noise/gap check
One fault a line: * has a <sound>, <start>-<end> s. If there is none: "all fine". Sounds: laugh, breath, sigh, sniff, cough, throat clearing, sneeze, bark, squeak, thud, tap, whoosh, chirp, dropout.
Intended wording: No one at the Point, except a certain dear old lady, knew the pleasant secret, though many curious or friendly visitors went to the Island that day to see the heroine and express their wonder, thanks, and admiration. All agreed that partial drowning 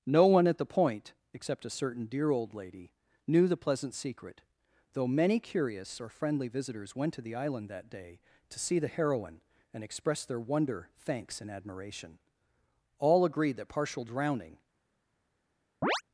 * has a chirp, 15.8-16.0 s